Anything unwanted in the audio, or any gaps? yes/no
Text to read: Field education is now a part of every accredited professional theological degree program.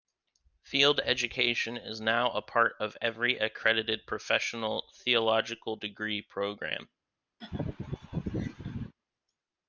yes